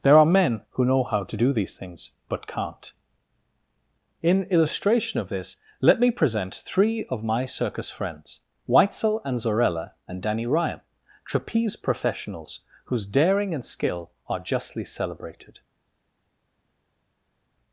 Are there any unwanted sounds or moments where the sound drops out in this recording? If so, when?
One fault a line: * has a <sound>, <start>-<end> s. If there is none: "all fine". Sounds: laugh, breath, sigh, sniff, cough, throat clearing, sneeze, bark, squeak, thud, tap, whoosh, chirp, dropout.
all fine